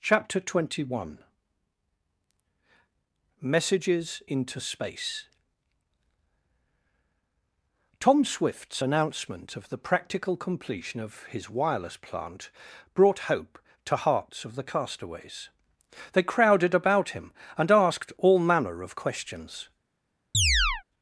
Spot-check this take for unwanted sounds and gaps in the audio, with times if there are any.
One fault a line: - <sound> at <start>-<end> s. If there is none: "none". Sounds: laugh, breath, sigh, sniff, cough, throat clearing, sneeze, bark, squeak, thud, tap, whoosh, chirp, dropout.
- chirp at 20.3-20.8 s